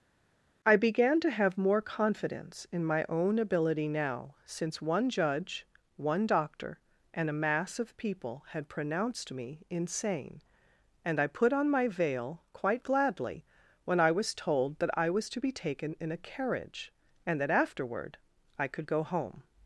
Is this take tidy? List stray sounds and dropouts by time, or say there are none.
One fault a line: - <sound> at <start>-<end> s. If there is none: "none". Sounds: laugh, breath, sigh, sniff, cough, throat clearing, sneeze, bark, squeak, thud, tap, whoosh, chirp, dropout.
none